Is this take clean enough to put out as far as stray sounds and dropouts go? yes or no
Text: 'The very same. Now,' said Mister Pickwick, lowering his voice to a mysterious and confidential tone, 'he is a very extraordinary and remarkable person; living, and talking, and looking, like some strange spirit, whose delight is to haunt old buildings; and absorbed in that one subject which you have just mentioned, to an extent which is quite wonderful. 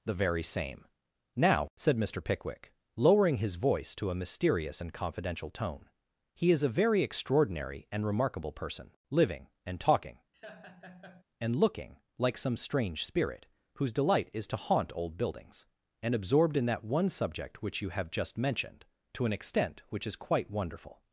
no